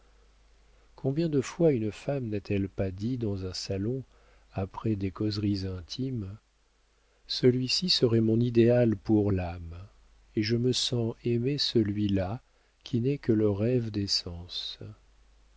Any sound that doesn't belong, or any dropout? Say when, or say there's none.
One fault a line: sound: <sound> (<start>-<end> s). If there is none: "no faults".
no faults